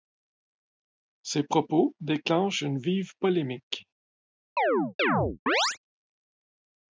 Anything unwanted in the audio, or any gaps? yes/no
yes